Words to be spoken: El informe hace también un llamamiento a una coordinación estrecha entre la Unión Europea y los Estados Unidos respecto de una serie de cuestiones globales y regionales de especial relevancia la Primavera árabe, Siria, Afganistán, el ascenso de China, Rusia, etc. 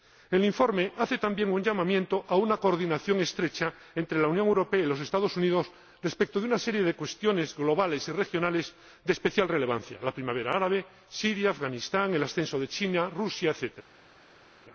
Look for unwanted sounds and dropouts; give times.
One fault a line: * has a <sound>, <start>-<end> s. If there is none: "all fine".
all fine